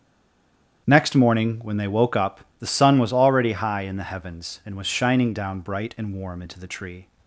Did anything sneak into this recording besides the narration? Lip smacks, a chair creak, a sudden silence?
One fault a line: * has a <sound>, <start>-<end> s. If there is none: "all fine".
all fine